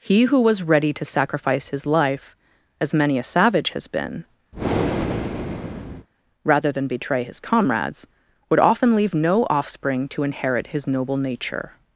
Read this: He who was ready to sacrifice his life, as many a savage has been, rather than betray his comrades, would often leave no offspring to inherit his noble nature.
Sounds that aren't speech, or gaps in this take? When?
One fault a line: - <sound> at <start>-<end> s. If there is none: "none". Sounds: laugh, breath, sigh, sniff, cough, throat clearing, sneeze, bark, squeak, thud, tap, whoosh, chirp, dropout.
- breath at 4.5-6.1 s